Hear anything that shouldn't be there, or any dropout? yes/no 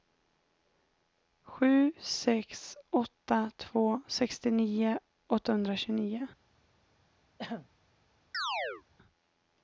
yes